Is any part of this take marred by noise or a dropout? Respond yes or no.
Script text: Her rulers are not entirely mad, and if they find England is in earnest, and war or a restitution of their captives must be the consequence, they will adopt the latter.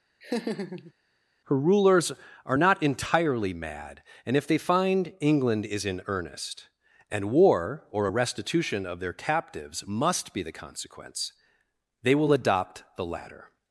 yes